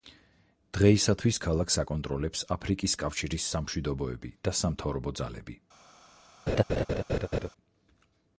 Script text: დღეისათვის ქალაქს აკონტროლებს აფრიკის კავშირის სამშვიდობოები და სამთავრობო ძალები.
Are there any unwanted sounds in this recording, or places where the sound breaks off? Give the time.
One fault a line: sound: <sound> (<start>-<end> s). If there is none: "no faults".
sound: laugh (6.5-7.5 s)